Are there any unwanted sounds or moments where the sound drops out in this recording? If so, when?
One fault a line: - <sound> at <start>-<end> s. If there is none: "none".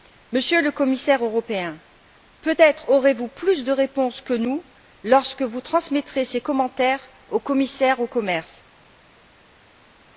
none